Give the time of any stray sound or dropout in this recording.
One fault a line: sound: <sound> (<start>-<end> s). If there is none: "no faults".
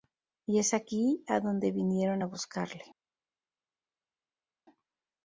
no faults